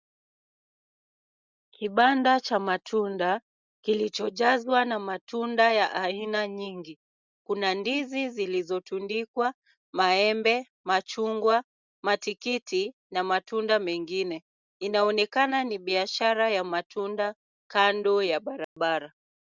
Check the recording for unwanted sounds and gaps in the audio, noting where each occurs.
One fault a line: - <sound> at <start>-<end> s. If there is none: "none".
- dropout at 18.6-18.8 s